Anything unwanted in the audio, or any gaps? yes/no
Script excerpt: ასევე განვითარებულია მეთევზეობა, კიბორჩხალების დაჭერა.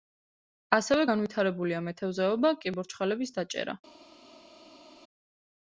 no